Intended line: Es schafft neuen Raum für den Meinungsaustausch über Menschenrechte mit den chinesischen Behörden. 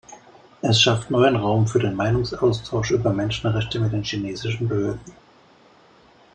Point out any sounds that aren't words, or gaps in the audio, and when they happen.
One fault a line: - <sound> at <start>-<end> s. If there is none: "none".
none